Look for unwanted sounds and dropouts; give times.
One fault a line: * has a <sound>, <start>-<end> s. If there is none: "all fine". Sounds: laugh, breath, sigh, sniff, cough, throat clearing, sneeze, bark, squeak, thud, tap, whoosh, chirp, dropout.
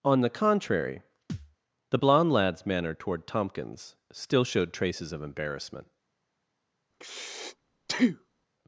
* has a thud, 1.3-1.6 s
* has a breath, 6.9-8.5 s